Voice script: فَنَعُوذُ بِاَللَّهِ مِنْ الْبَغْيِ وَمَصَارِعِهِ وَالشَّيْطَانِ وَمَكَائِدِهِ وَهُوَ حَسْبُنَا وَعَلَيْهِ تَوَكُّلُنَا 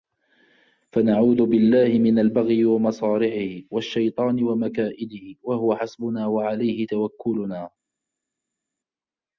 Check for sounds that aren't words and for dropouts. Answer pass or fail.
pass